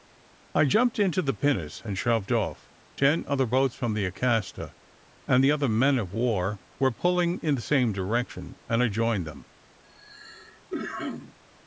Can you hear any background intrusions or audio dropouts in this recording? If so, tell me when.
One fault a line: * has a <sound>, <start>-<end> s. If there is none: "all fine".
* has a cough, 9.8-11.4 s